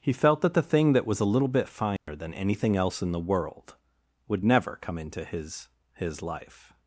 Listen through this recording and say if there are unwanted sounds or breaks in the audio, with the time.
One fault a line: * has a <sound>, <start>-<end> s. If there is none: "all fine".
* has a dropout, 2.0-2.1 s